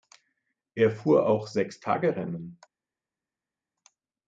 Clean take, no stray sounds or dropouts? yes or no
yes